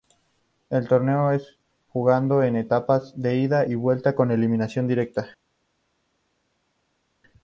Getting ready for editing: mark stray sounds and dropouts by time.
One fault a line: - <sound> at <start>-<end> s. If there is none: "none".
none